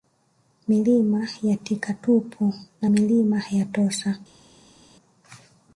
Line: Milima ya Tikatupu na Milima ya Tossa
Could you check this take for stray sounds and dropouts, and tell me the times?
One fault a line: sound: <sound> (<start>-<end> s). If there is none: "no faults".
no faults